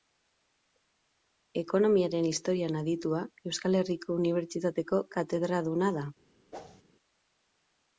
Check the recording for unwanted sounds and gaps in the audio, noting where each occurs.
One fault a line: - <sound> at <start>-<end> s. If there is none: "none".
- whoosh at 6.5-6.8 s